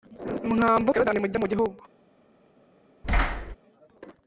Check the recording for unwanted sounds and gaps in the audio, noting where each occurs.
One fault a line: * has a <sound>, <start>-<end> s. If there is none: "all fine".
* has a thud, 3.0-3.6 s